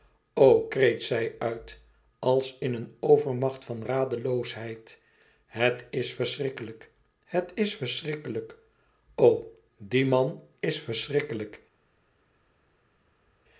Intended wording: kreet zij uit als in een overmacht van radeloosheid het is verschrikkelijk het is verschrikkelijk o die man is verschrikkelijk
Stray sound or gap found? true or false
false